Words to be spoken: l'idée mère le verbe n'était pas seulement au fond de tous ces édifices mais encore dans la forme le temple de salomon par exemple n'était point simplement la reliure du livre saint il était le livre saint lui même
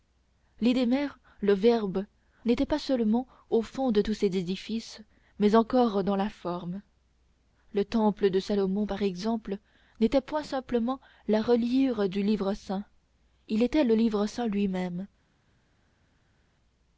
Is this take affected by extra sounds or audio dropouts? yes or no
no